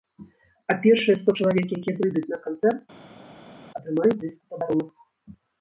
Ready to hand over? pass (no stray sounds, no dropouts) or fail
pass